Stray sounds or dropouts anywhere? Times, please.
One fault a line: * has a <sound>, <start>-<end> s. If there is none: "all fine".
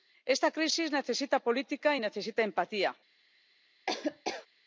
* has a laugh, 3.9-4.5 s